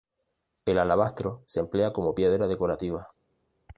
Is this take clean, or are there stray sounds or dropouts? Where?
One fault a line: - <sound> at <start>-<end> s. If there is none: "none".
none